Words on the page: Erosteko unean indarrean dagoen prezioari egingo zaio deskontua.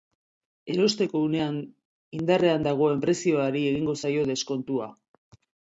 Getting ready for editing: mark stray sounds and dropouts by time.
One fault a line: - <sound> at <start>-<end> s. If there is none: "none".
none